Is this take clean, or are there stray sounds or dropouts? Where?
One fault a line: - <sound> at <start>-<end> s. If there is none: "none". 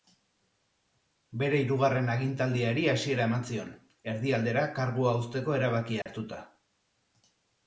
- dropout at 6.0-6.1 s